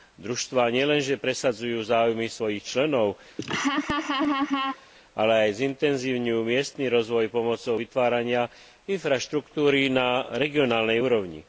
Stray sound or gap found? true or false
true